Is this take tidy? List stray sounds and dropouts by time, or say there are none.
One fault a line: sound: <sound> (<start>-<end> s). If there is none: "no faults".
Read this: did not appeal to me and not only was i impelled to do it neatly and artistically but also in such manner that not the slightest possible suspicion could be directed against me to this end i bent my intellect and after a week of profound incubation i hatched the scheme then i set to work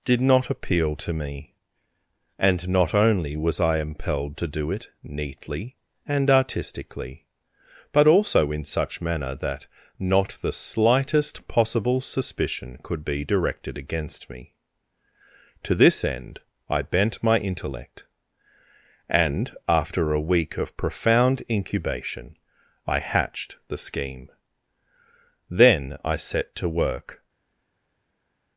no faults